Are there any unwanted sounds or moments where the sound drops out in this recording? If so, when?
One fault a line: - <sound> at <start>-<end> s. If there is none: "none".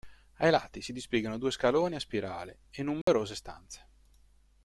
- dropout at 3.0-3.1 s